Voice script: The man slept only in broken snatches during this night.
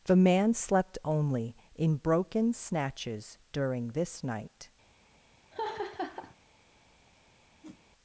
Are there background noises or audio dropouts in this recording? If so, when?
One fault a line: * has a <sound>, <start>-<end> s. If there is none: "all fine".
* has a laugh, 5.5-6.4 s
* has a whoosh, 7.6-7.8 s